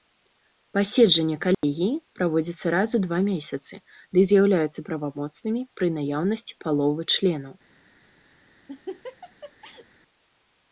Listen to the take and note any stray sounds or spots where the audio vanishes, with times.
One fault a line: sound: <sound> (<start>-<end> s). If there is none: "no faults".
sound: dropout (1.5-1.6 s)
sound: laugh (8.7-9.9 s)